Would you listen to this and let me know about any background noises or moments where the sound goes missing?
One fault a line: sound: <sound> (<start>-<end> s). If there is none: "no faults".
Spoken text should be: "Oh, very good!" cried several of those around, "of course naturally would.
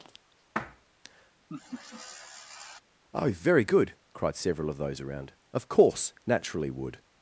sound: laugh (1.5-2.8 s)